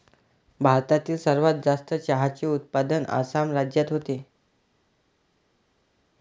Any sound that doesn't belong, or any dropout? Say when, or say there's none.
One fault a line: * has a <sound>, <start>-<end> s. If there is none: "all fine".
all fine